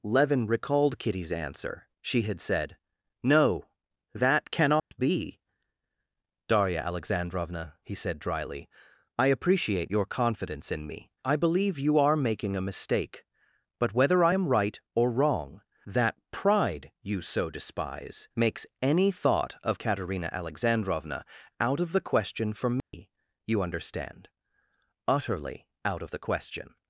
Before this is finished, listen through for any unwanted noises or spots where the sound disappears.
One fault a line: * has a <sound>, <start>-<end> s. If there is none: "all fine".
* has a dropout, 4.8-4.9 s
* has a dropout, 22.8-22.9 s